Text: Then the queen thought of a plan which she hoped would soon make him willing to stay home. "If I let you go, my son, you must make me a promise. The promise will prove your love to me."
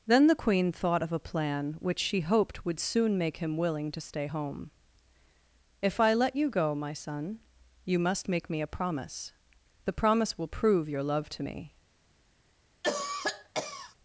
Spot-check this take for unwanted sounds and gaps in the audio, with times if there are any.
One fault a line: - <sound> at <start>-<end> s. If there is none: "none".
- cough at 12.8-14.0 s